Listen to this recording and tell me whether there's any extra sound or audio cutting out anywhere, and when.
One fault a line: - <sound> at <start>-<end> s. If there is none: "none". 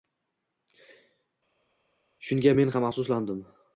none